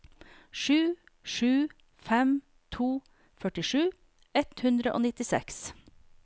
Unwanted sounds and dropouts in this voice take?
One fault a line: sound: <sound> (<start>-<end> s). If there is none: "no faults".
no faults